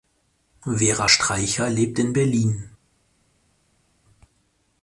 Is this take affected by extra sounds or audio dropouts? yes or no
no